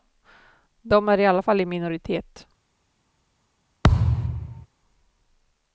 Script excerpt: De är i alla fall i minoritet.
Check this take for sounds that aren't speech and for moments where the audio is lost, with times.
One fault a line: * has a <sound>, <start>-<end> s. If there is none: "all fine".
* has a thud, 3.8-4.7 s